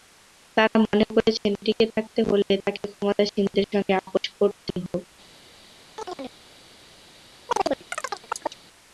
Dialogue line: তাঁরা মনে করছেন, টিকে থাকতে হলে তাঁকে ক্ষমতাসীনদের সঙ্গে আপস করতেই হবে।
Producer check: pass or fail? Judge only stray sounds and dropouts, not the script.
fail